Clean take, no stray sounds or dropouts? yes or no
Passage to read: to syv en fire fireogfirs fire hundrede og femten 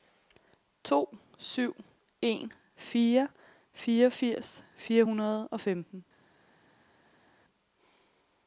yes